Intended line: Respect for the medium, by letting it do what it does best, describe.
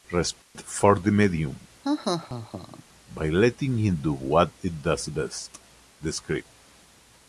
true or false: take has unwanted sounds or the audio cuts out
true